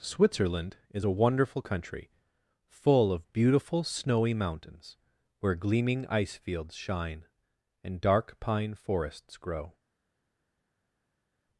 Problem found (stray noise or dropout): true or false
false